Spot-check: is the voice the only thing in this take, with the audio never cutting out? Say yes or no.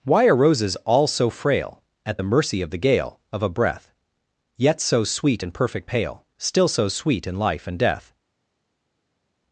yes